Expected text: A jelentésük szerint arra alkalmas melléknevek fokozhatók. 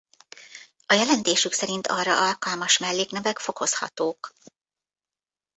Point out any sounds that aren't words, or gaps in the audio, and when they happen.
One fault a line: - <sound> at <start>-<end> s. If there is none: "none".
none